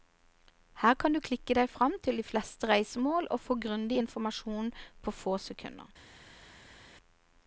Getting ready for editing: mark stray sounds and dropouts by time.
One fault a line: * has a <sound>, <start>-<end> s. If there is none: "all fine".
all fine